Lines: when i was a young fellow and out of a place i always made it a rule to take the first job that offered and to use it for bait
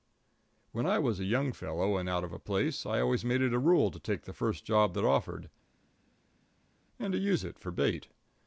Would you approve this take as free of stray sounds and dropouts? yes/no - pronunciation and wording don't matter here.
yes